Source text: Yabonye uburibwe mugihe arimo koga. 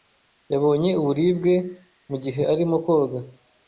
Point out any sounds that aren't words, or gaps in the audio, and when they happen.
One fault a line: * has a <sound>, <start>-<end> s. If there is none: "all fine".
all fine